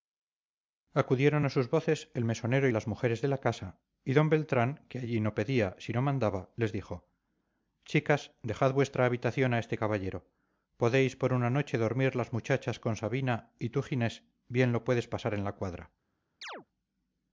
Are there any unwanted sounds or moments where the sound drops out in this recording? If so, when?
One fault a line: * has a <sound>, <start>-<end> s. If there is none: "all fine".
* has a chirp, 16.4-16.7 s